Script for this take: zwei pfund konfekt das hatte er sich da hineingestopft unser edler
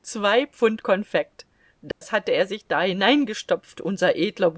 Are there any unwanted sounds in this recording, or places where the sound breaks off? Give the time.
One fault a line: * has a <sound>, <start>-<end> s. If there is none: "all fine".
* has a dropout, 1.9-2.0 s